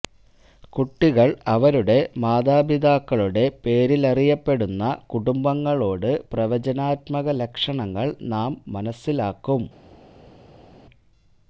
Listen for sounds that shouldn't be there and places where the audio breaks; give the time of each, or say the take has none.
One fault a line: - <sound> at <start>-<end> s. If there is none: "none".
none